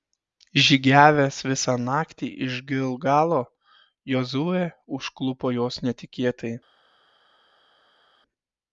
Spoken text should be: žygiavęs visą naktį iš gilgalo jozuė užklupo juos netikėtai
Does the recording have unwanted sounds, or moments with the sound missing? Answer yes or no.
no